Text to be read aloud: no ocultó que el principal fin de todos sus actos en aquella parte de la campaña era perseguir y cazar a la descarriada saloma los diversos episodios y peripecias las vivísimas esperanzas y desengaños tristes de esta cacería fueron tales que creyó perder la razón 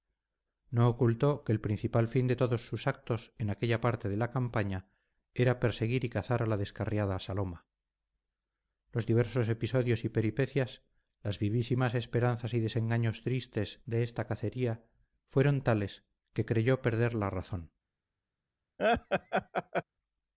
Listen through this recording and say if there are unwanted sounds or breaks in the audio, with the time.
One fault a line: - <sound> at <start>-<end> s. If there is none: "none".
- laugh at 18.8-19.8 s